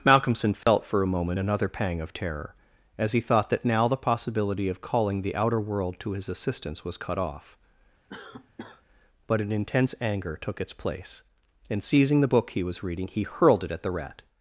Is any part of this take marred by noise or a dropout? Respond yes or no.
yes